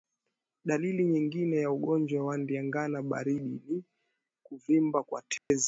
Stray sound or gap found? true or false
true